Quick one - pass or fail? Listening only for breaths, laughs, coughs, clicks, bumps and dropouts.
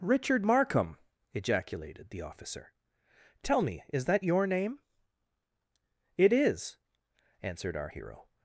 pass